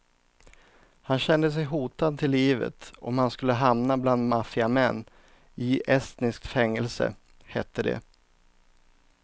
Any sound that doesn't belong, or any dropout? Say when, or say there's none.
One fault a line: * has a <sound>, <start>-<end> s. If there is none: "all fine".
all fine